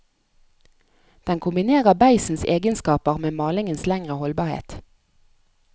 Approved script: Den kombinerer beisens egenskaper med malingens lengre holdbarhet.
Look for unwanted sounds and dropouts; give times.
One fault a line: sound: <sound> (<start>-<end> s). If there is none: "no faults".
no faults